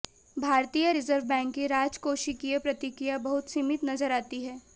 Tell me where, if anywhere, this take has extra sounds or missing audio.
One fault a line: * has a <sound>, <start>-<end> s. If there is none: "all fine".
all fine